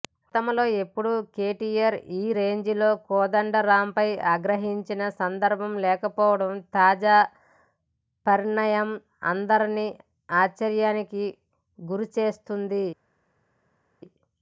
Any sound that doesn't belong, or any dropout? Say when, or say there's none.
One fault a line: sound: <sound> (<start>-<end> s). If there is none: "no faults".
no faults